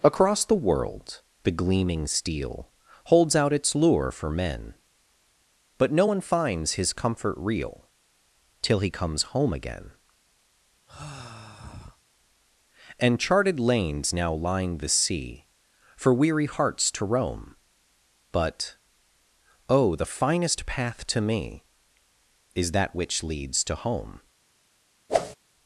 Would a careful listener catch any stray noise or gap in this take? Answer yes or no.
yes